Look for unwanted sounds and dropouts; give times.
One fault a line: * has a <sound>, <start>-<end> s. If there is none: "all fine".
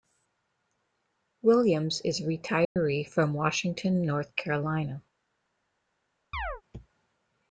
* has a dropout, 2.6-2.8 s
* has a chirp, 6.3-6.6 s